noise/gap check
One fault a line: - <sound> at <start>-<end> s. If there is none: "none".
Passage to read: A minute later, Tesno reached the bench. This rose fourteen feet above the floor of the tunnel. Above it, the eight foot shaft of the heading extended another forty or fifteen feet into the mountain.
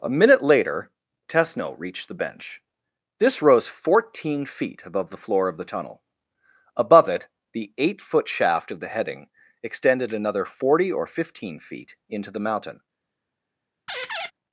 - squeak at 13.9-14.3 s